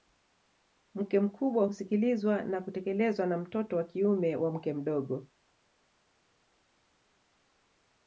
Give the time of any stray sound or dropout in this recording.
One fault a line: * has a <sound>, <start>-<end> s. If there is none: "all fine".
all fine